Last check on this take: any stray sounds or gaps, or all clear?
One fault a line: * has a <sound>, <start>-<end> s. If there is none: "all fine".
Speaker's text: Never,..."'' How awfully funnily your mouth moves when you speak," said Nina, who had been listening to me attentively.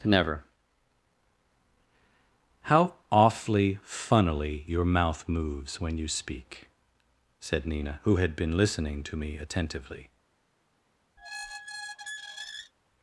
* has a squeak, 11.2-12.7 s